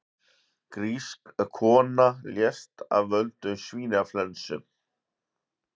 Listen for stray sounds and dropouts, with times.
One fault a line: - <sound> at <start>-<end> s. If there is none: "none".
none